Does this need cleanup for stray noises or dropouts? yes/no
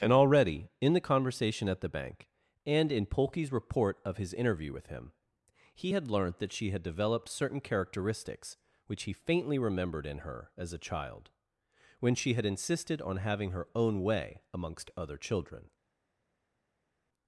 no